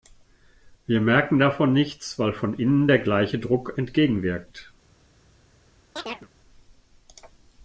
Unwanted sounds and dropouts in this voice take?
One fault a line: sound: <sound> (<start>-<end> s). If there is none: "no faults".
sound: chirp (6.0-6.3 s)